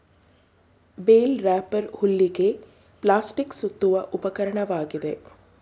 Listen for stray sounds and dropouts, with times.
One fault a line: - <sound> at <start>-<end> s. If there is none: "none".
none